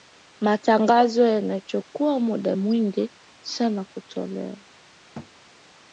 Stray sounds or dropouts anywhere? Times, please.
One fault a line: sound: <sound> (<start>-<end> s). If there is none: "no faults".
sound: thud (5.1-5.3 s)